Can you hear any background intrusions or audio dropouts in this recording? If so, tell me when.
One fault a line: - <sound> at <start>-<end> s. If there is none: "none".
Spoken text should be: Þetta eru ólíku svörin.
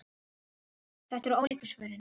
- dropout at 1.5-1.5 s